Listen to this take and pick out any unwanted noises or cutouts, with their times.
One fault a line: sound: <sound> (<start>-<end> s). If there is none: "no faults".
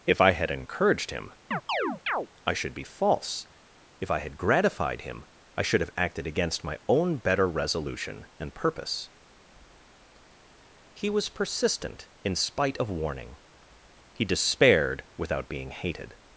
sound: chirp (1.5-2.3 s)